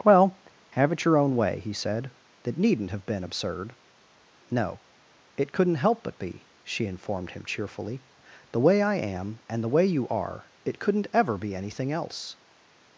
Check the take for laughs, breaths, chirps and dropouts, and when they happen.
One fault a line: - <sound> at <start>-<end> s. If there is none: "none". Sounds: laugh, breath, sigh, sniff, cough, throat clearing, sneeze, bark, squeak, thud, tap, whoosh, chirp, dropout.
none